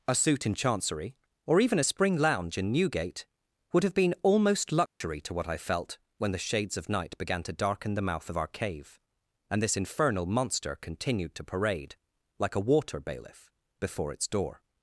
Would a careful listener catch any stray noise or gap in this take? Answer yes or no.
yes